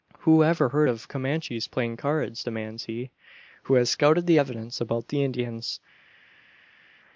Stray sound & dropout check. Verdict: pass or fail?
pass